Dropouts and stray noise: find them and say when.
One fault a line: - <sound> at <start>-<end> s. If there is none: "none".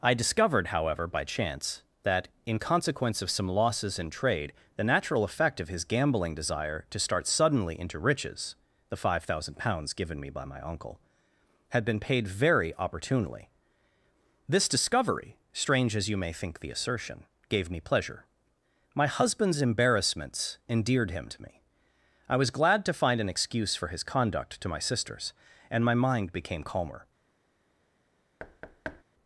- thud at 28.4-29.0 s